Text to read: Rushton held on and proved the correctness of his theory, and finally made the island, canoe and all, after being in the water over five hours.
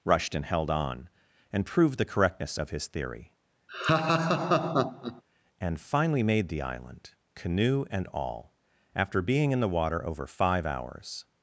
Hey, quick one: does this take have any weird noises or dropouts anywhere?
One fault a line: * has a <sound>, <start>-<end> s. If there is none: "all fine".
* has a laugh, 3.7-5.2 s